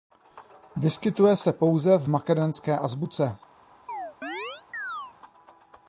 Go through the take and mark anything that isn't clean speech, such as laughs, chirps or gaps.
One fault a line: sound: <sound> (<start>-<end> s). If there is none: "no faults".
sound: chirp (3.9-5.2 s)